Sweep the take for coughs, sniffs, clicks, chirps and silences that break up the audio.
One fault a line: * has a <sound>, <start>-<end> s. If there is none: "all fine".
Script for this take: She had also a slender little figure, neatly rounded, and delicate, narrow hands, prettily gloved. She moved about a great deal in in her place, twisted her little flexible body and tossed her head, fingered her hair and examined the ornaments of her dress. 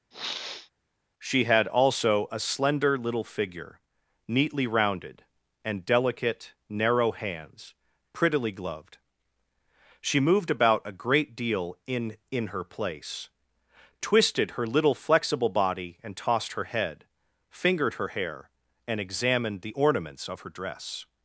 * has a sniff, 0.1-0.7 s